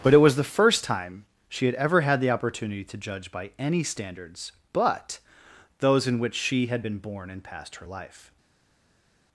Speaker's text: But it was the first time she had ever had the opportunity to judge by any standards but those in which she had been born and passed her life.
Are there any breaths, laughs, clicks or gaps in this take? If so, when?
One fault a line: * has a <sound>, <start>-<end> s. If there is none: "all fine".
all fine